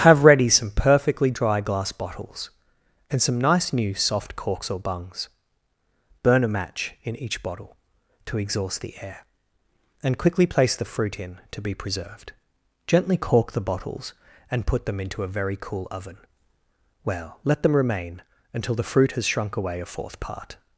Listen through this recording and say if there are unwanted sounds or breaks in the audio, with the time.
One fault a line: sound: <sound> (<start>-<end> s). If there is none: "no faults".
no faults